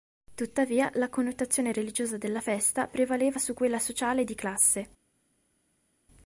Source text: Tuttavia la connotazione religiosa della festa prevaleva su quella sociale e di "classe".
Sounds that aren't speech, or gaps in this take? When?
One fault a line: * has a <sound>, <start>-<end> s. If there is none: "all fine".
all fine